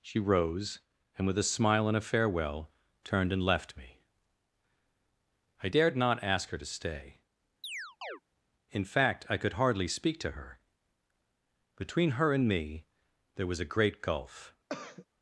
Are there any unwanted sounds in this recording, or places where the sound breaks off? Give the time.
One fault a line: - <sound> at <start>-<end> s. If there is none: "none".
- chirp at 7.6-8.2 s
- throat clearing at 14.7-15.1 s